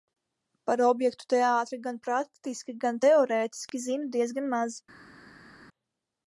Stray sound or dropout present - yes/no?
no